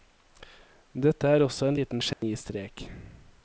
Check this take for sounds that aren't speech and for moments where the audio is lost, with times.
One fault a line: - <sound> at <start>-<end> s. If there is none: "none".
- dropout at 2.1-2.2 s